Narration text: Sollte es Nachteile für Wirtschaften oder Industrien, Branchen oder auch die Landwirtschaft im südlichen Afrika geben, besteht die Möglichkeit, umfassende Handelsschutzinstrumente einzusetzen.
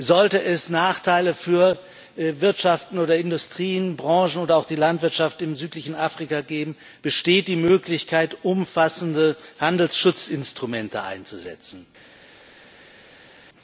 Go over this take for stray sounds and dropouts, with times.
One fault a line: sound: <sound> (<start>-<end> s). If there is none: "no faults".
no faults